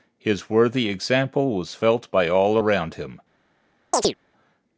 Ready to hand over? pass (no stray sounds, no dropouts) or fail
fail